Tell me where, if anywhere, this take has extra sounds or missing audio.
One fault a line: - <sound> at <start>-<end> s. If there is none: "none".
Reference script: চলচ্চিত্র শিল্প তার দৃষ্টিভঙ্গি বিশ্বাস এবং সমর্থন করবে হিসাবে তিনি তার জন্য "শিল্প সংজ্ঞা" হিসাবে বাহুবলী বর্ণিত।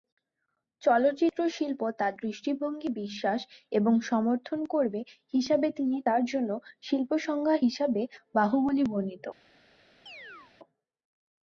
- chirp at 10.1-10.5 s